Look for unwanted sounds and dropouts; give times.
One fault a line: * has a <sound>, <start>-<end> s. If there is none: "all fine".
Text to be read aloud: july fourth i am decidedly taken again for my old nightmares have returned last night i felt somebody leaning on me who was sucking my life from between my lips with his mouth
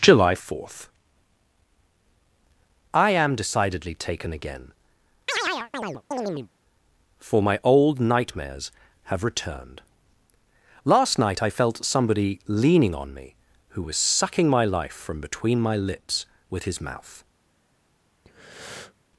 * has a chirp, 5.3-6.5 s
* has a breath, 18.2-18.9 s